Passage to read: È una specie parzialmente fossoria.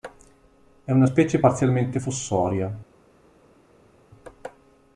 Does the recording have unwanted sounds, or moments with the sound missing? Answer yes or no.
no